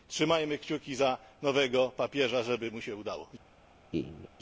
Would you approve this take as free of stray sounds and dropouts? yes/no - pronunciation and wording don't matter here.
no